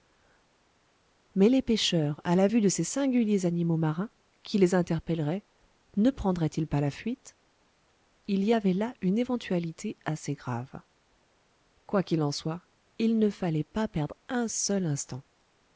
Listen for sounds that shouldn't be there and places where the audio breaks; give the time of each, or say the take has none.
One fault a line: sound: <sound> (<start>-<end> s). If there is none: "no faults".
no faults